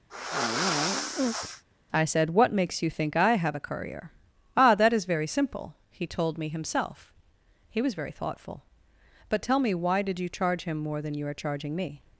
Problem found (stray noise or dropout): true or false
true